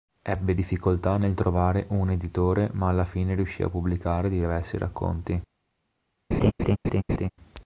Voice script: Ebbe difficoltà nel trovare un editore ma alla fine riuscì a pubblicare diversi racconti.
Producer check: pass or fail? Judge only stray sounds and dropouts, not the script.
fail